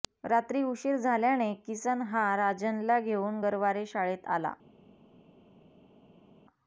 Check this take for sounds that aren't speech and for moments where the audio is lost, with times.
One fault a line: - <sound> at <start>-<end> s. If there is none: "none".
none